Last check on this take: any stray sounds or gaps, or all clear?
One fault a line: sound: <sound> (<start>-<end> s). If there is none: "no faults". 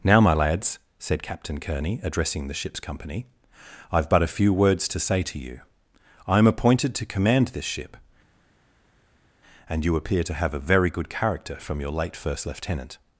no faults